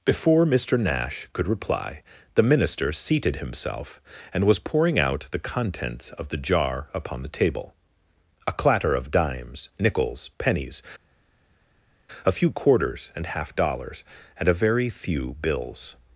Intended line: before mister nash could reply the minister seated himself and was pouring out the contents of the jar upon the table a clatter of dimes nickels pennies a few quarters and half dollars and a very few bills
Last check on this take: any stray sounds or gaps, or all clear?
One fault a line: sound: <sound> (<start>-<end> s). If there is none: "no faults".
no faults